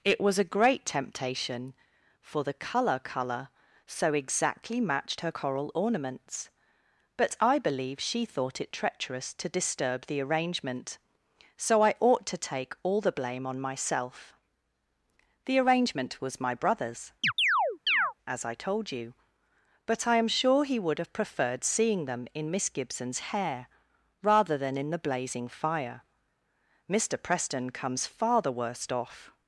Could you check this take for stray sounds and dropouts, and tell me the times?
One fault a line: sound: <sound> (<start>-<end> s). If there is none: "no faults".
sound: chirp (17.2-18.1 s)